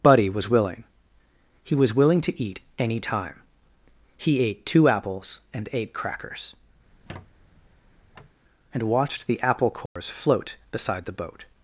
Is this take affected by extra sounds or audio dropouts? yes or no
yes